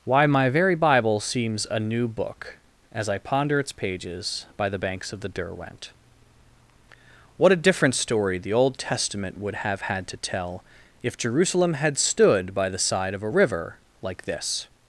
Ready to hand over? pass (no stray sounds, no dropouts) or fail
pass